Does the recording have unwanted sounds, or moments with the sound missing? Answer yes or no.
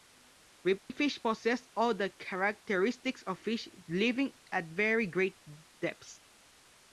yes